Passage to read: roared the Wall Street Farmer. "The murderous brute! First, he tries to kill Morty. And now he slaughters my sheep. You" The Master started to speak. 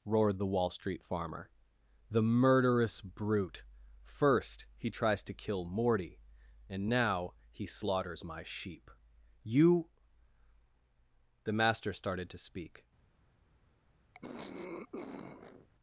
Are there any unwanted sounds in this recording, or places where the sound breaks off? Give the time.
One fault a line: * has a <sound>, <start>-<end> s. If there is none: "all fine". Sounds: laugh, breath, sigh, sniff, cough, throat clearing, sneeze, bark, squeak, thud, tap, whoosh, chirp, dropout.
* has a throat clearing, 14.1-15.7 s